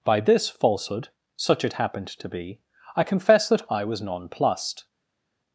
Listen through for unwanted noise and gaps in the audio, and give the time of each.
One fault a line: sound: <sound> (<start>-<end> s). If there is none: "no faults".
no faults